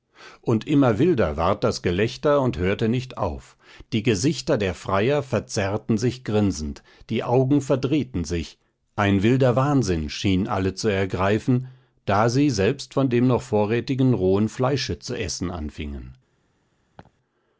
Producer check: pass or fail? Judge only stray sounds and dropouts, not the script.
fail